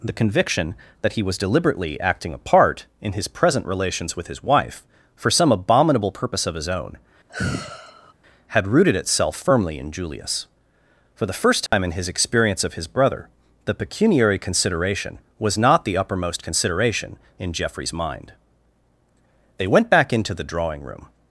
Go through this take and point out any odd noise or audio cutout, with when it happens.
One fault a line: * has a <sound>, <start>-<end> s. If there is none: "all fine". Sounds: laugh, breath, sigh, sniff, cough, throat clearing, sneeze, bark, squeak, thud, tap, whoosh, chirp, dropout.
* has a sigh, 7.3-8.1 s
* has a dropout, 11.7-11.7 s